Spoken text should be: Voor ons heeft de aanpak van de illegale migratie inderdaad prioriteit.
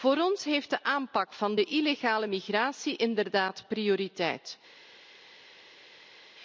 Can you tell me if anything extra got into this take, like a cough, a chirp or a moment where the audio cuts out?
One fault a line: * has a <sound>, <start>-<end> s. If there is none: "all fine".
all fine